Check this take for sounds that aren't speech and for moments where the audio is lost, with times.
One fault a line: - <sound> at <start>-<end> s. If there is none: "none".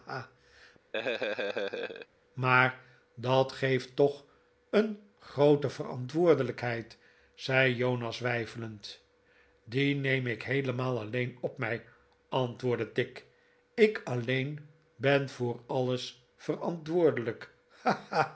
- laugh at 0.9-2.1 s